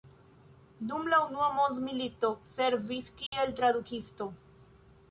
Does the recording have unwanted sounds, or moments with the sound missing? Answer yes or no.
yes